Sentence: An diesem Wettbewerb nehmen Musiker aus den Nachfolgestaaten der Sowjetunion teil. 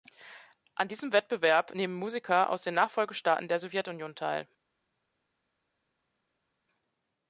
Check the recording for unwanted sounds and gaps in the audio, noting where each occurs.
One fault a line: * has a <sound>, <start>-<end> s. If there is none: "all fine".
all fine